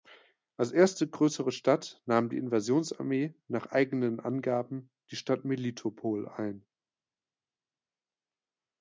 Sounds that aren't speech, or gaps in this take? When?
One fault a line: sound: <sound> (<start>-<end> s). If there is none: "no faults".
no faults